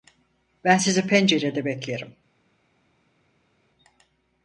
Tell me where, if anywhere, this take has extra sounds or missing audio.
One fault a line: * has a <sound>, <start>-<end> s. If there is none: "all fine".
all fine